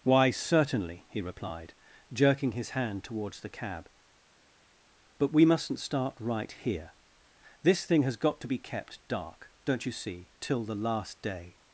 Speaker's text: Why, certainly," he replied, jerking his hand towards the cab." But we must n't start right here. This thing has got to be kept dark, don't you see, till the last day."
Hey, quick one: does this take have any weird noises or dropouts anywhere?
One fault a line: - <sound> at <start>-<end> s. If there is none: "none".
none